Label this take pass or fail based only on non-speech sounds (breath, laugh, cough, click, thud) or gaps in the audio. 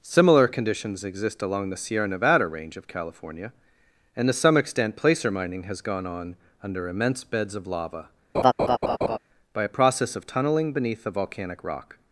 fail